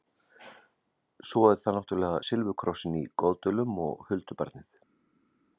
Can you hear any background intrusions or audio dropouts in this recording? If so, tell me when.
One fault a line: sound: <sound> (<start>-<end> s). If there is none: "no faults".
no faults